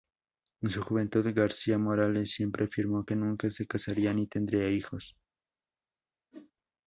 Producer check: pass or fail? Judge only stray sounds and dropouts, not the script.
fail